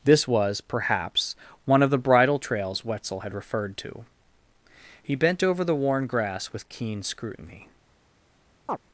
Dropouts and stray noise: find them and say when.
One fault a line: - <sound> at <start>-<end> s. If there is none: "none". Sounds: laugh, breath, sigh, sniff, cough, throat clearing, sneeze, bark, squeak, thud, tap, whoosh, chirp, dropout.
- chirp at 8.7-8.8 s